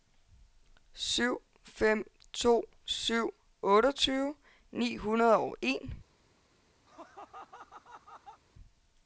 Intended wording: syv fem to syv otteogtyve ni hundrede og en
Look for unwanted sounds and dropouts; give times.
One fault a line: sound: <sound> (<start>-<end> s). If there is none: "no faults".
sound: laugh (6.9-8.4 s)